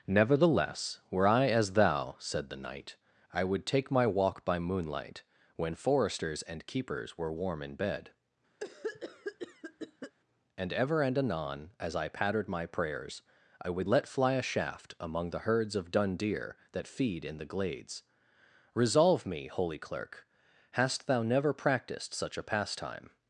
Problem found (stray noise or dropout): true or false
true